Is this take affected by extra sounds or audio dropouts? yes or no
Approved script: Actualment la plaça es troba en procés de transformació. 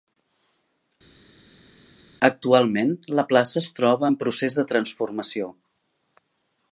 no